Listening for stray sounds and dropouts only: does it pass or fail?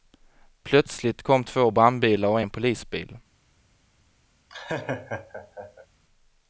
fail